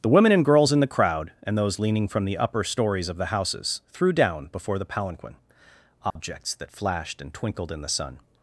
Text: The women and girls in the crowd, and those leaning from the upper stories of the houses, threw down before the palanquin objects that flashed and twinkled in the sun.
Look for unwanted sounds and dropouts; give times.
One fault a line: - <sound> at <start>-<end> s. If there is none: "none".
- dropout at 6.1-6.2 s